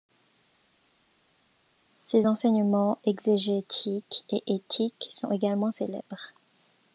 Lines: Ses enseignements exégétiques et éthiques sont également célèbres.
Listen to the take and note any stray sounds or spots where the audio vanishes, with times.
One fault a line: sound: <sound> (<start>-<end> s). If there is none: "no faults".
no faults